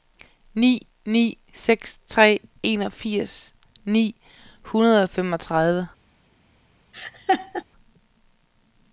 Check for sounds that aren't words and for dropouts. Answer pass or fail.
fail